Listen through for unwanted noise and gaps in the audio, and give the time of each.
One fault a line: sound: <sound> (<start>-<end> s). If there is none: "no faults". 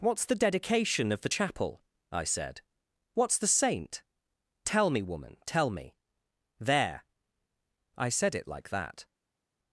no faults